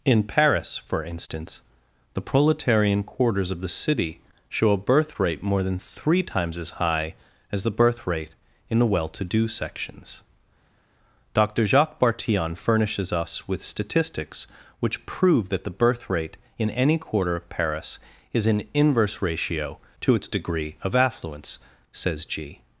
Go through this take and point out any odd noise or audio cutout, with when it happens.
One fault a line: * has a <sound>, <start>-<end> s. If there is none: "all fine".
all fine